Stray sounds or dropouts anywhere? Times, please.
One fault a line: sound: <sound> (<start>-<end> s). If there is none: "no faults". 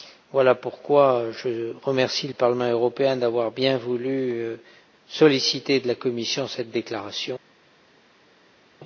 no faults